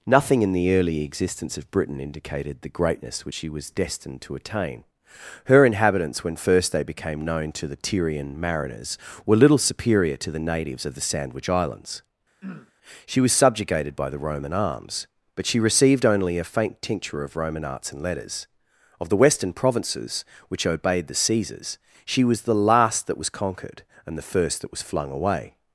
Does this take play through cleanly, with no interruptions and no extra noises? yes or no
no